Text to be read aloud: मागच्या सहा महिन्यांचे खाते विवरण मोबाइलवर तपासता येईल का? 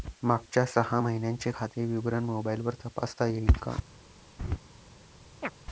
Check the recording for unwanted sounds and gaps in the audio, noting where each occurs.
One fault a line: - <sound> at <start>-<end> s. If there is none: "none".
- laugh at 4.4-4.6 s
- chirp at 5.4-5.5 s